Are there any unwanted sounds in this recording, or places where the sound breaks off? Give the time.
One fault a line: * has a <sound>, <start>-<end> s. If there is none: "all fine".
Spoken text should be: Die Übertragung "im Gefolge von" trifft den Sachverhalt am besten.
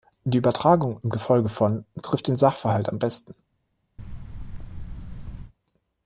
* has a thud, 4.0-5.5 s